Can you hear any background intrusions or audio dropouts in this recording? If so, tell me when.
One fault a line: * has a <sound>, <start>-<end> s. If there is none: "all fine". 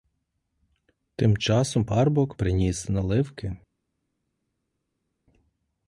all fine